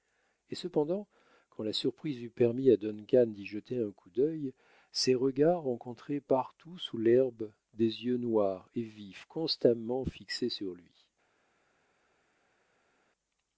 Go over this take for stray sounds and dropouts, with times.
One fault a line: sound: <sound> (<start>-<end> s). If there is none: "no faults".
no faults